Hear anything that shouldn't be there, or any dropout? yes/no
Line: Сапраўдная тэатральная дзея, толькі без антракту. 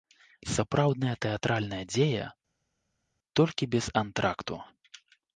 no